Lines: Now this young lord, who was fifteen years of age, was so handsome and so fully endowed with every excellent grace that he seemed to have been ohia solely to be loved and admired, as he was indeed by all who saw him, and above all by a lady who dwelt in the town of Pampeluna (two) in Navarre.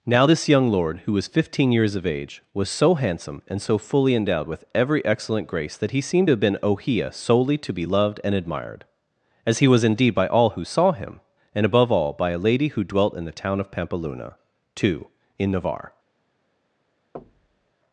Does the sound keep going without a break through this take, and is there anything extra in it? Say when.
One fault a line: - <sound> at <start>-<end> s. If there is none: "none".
- thud at 17.1-17.7 s